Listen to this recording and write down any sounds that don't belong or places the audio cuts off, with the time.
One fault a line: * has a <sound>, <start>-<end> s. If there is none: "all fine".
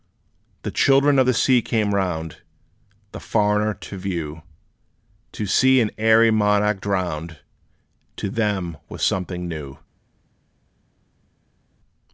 all fine